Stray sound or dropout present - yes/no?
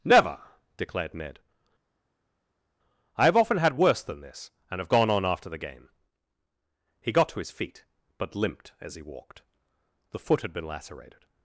no